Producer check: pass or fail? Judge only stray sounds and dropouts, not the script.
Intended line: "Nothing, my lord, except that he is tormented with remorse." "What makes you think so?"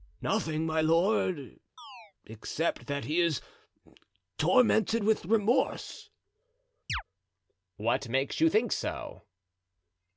fail